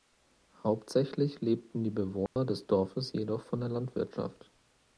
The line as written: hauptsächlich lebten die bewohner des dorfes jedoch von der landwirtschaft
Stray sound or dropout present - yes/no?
yes